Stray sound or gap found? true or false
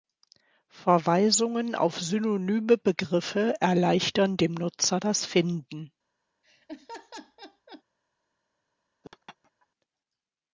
true